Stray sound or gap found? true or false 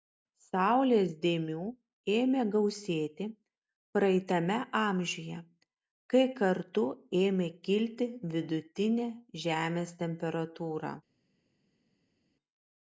false